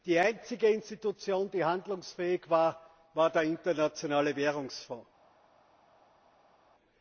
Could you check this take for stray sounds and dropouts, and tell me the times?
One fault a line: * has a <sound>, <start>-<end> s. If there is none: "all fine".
all fine